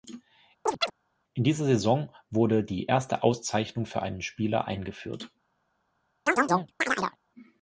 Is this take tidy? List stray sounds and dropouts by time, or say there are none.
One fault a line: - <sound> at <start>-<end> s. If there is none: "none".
- chirp at 0.7-0.9 s
- chirp at 6.3-7.2 s